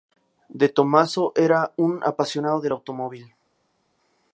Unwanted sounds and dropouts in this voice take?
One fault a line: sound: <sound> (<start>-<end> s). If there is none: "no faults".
no faults